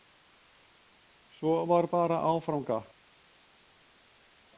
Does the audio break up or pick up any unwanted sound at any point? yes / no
no